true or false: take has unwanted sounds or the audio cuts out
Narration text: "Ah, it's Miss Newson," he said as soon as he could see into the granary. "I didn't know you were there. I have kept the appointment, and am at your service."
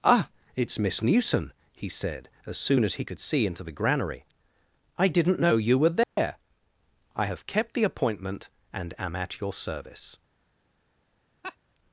true